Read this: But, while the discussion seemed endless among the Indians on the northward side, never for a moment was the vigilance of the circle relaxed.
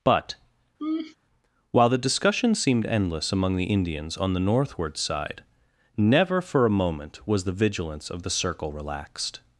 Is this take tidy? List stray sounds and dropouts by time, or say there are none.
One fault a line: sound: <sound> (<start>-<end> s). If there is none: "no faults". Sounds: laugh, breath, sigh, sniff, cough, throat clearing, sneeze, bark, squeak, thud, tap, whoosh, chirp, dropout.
sound: laugh (0.8-1.2 s)